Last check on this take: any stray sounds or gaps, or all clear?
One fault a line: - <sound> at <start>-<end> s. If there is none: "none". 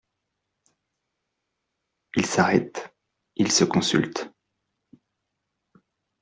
none